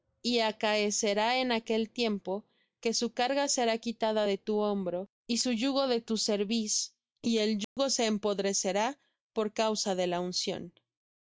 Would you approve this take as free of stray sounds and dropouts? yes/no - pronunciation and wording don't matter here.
no